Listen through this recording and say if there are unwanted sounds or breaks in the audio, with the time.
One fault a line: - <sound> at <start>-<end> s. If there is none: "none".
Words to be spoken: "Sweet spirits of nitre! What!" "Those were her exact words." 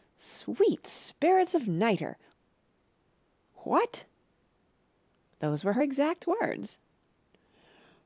none